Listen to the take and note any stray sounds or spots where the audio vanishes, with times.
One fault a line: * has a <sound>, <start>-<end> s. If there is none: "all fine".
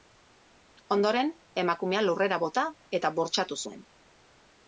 all fine